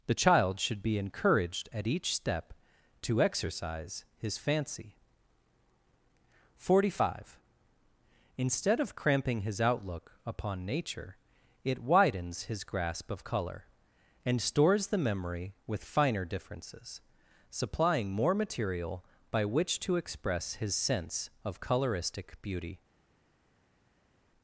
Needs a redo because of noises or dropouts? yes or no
no